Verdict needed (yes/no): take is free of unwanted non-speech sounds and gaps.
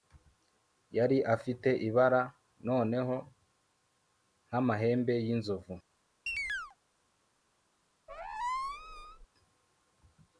no